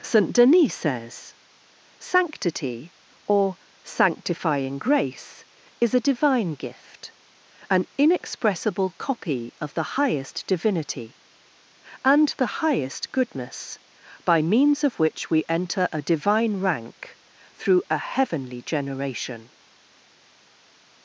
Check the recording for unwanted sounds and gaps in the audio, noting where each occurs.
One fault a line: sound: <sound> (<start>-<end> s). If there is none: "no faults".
no faults